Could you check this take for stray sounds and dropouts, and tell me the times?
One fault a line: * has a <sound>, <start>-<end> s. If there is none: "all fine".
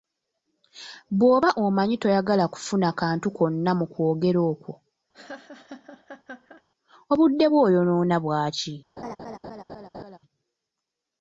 * has a laugh, 5.1-6.6 s
* has a laugh, 9.0-10.2 s